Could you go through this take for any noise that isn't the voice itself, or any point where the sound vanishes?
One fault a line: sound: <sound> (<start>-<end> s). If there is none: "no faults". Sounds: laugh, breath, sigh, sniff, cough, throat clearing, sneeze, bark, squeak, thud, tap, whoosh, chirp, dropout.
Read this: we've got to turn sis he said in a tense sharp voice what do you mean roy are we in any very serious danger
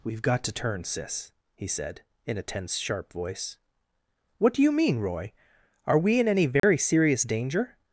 sound: dropout (6.6-6.6 s)